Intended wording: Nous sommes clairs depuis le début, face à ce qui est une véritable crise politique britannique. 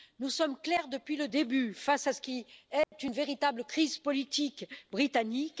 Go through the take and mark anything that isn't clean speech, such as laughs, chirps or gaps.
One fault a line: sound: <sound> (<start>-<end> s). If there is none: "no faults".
sound: dropout (2.8-2.9 s)